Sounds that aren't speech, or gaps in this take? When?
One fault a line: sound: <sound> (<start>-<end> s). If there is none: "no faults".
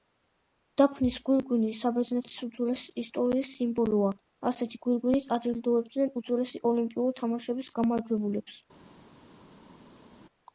no faults